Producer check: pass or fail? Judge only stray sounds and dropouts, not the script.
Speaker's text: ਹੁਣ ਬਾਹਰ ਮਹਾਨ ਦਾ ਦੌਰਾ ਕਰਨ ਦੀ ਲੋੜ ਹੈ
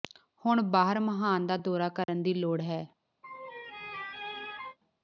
fail